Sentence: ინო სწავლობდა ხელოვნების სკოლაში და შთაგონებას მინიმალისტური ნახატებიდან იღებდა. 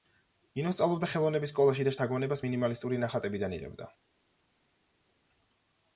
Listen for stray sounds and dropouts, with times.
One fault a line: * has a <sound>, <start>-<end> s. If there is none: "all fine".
all fine